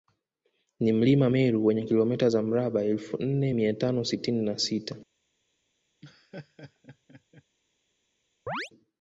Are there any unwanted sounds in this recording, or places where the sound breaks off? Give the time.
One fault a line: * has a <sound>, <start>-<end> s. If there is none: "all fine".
* has a laugh, 6.0-7.4 s
* has a chirp, 8.5-8.7 s